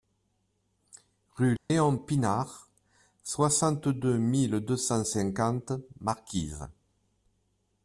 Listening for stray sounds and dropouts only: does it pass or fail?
fail